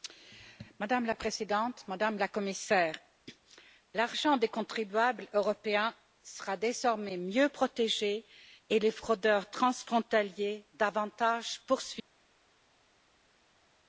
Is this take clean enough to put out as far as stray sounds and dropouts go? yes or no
yes